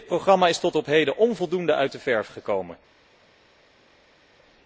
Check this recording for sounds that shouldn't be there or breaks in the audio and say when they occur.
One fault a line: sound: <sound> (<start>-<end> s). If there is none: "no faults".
no faults